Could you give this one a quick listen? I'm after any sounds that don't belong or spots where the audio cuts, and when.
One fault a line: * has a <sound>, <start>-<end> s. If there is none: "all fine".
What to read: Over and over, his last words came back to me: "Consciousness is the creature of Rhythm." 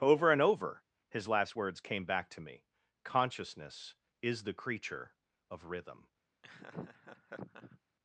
* has a laugh, 6.4-7.8 s